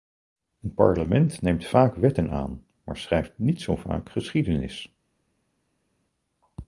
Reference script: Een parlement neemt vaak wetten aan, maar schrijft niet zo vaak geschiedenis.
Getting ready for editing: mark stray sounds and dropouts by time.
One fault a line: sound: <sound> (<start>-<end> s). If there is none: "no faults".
no faults